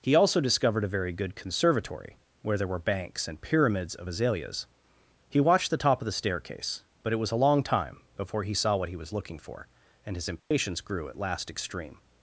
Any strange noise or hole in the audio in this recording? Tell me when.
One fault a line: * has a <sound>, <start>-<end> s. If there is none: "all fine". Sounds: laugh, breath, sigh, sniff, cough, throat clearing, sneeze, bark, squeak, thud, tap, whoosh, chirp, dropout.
* has a dropout, 10.4-10.5 s